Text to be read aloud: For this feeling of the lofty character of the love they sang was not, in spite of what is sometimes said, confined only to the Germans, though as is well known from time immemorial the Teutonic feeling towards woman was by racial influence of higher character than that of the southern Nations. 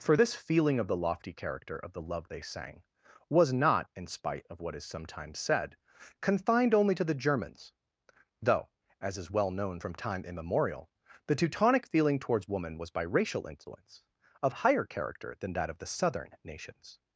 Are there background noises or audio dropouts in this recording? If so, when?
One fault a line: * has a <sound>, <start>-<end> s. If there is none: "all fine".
all fine